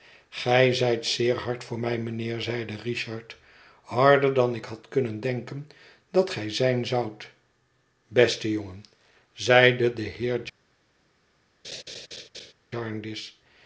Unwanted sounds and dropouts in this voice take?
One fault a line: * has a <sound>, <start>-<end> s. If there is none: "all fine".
* has a laugh, 11.6-12.5 s